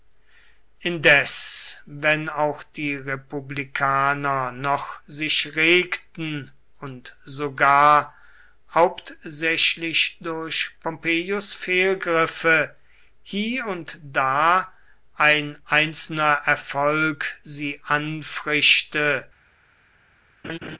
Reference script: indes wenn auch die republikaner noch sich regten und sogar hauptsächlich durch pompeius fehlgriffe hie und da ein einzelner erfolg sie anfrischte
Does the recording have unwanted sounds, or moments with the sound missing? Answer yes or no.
yes